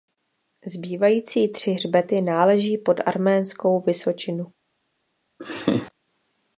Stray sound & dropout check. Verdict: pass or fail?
fail